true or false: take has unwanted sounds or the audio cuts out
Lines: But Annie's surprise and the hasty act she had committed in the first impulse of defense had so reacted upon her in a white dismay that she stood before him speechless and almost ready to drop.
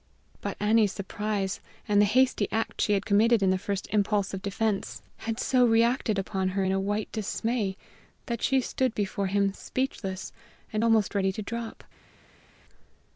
false